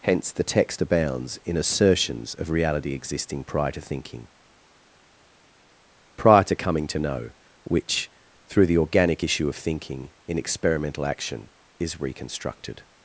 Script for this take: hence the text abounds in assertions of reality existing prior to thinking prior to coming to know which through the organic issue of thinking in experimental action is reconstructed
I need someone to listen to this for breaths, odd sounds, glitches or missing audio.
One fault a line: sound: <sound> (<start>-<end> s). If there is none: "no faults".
no faults